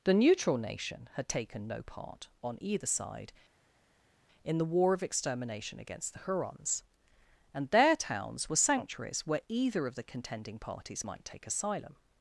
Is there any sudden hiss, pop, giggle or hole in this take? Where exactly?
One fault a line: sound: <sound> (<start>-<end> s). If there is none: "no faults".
no faults